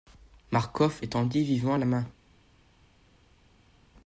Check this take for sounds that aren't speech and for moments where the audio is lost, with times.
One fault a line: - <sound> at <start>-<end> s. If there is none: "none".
none